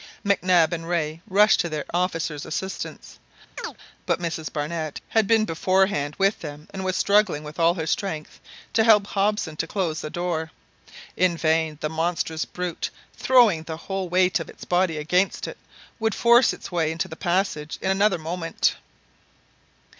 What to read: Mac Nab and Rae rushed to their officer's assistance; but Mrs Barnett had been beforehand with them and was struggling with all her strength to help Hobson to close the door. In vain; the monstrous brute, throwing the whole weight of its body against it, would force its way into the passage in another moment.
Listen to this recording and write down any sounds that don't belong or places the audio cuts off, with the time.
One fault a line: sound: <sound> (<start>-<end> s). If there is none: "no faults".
sound: chirp (3.6-3.8 s)